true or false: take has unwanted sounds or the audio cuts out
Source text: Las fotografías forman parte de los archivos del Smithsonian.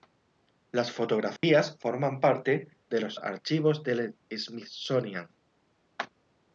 true